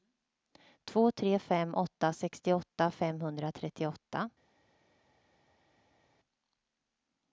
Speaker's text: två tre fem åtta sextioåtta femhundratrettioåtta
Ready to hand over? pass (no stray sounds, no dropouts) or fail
pass